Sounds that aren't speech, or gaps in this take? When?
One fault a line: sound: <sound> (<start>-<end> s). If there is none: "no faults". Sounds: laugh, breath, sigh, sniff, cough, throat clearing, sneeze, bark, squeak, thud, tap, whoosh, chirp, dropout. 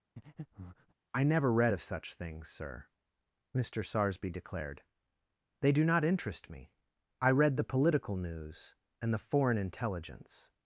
sound: breath (0.2-0.9 s)